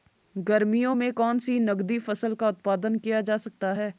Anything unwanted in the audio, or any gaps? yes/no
no